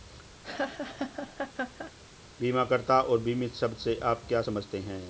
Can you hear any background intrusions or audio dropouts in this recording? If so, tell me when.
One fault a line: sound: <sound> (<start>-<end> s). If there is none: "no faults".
sound: laugh (0.4-1.9 s)